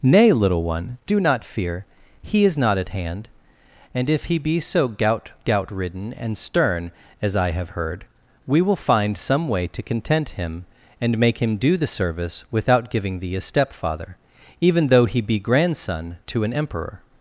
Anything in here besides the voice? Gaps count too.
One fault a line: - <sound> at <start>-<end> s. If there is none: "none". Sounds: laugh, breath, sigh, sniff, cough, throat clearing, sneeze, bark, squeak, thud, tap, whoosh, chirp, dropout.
none